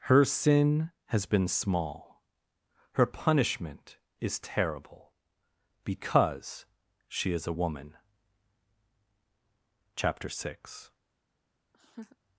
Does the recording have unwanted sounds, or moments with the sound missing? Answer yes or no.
yes